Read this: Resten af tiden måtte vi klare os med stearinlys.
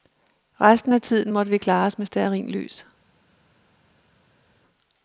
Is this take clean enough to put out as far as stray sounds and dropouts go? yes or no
yes